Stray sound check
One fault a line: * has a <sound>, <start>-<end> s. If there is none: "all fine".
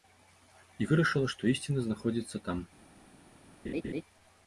* has a laugh, 3.6-4.0 s